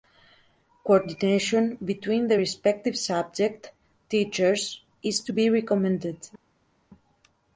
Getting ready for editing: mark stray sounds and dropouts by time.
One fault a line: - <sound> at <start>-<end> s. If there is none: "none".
none